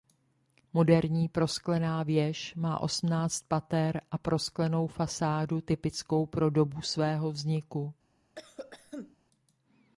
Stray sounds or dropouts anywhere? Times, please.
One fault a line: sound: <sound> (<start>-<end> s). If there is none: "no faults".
sound: cough (8.4-9.2 s)